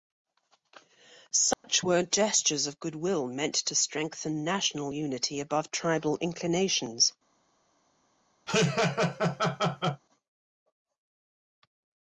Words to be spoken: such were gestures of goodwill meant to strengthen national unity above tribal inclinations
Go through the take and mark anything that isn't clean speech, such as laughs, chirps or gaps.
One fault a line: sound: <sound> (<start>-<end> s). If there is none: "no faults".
sound: dropout (1.5-1.6 s)
sound: laugh (8.5-10.0 s)